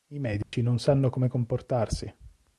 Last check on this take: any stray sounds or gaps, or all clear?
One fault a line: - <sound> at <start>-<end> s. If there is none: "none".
- dropout at 0.4-0.5 s